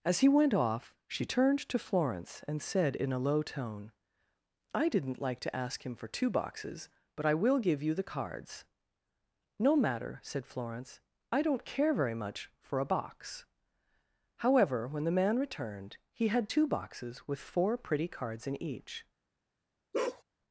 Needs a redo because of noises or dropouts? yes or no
yes